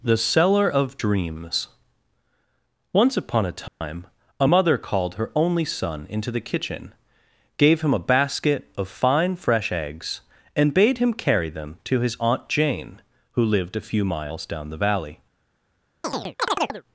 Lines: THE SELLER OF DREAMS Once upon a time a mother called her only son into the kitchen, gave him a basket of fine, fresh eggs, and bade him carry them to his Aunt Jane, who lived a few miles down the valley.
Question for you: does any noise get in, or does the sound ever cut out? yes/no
yes